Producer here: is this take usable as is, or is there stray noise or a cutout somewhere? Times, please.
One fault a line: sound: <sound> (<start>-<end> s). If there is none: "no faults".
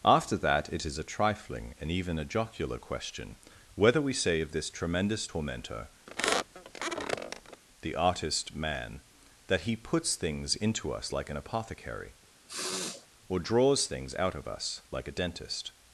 sound: squeak (6.1-7.6 s)
sound: sniff (12.5-13.1 s)